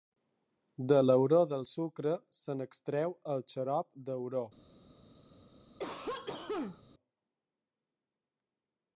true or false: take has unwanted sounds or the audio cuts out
true